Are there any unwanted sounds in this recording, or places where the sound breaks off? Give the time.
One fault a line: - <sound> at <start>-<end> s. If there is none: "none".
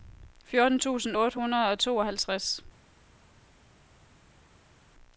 none